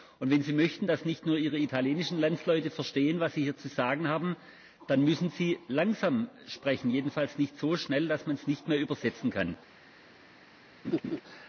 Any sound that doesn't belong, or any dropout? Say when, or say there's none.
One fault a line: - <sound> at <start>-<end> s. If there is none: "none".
- laugh at 10.8-11.2 s